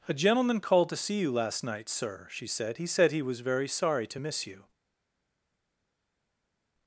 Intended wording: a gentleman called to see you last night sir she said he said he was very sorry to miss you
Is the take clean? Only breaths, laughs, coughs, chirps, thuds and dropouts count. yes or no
yes